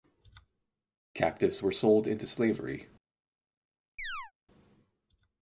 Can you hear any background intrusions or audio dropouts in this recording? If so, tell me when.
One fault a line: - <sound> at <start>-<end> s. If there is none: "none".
- chirp at 4.0-4.3 s